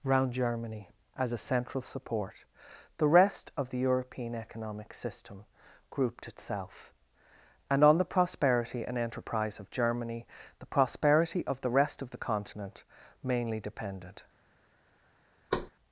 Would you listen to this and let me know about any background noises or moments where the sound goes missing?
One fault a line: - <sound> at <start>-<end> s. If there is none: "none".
- thud at 15.5-15.7 s